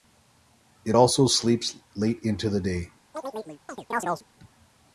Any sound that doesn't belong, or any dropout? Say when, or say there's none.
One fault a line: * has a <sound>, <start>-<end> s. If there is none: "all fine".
* has a chirp, 3.1-4.3 s